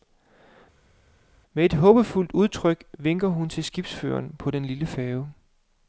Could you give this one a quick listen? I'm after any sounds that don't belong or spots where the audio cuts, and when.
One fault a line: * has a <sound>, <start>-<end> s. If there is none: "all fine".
all fine